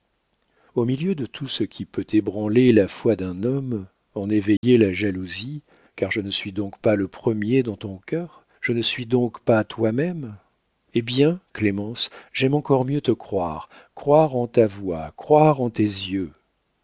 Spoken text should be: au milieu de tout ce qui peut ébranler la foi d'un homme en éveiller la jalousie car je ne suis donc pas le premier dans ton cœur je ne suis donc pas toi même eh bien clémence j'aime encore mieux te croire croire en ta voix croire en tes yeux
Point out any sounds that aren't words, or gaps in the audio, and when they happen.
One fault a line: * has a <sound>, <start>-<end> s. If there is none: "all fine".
* has a dropout, 4.6-4.6 s